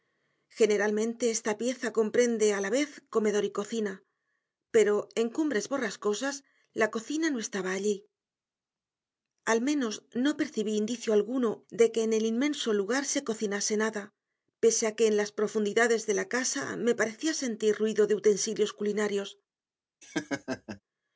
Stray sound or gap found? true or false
true